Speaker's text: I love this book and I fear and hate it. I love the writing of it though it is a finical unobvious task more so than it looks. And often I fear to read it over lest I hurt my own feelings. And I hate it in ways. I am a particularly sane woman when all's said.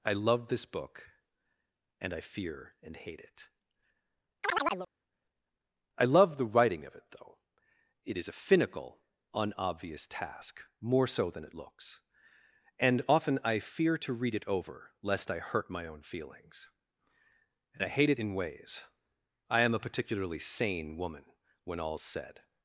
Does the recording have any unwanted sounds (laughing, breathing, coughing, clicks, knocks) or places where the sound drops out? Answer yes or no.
yes